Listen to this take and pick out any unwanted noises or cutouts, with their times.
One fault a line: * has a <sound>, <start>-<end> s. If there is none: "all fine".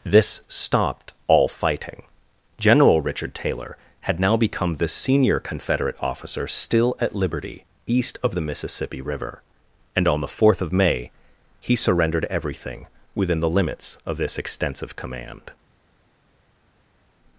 all fine